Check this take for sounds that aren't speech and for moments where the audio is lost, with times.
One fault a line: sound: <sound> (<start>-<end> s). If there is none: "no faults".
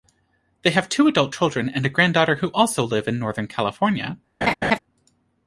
sound: laugh (4.4-4.8 s)